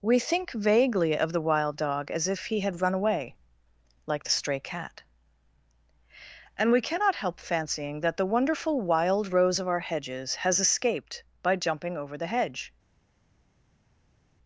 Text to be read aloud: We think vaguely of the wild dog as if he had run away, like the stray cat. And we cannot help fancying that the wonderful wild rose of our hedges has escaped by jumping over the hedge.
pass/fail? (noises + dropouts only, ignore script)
pass